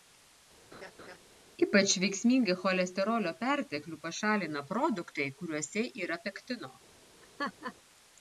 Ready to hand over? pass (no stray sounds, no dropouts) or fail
fail